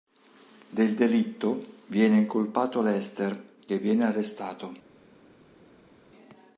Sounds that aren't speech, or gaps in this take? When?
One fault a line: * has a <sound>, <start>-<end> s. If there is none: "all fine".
all fine